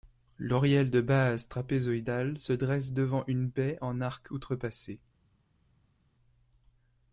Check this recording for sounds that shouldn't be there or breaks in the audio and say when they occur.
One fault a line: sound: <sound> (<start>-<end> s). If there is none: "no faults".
no faults